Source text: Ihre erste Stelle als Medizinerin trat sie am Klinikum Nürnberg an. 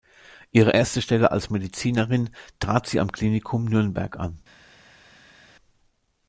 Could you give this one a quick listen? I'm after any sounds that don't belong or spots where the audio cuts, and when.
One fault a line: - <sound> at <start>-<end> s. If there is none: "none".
none